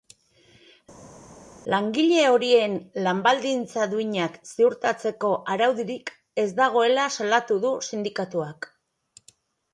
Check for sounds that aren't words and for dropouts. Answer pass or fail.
pass